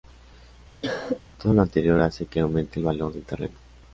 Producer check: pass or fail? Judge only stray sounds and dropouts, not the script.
fail